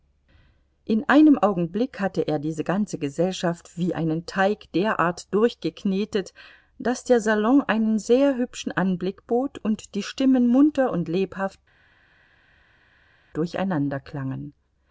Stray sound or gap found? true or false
false